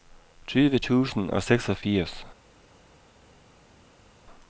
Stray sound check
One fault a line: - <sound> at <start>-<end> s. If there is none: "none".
none